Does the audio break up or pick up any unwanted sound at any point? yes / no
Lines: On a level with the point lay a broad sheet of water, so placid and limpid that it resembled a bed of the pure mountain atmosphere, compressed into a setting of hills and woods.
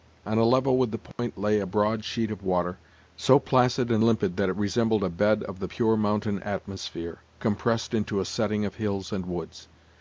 yes